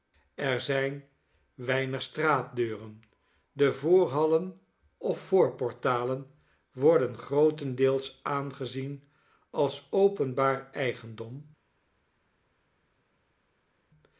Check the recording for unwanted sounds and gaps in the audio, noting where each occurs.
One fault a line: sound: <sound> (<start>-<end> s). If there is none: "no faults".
no faults